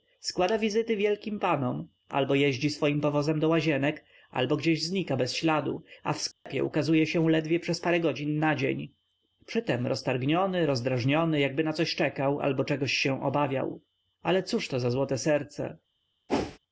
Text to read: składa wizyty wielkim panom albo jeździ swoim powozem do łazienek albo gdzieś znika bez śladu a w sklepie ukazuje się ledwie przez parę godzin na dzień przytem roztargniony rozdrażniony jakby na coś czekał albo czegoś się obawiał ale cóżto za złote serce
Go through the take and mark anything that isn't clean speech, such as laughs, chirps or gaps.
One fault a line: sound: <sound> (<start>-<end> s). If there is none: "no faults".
sound: dropout (6.3-6.5 s)
sound: whoosh (16.3-16.6 s)